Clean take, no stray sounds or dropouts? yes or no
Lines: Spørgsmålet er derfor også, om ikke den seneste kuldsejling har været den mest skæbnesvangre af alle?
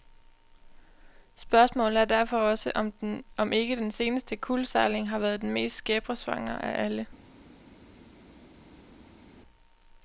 yes